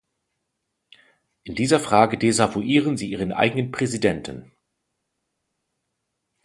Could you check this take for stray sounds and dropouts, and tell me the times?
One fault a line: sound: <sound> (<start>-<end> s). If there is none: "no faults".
no faults